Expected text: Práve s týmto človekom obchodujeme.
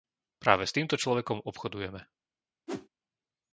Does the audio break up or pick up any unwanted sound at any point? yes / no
yes